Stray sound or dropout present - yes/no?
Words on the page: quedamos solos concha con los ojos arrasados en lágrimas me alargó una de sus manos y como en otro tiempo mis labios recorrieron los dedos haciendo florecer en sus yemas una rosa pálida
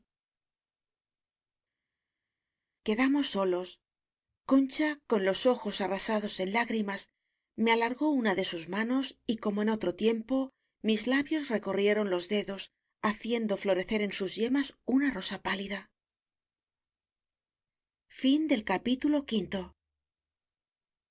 no